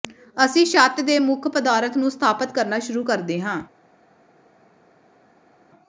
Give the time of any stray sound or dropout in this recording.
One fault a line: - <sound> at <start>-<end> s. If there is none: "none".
none